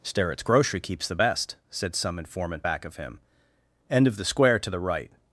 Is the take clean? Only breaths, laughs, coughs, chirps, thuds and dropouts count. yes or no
yes